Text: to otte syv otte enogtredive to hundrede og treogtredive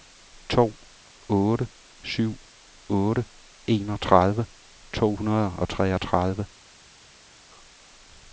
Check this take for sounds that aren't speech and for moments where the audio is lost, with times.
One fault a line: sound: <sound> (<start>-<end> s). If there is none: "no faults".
no faults